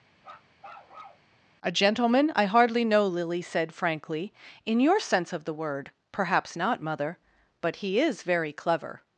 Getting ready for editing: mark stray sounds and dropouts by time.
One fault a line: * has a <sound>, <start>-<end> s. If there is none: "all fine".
* has a bark, 0.2-1.3 s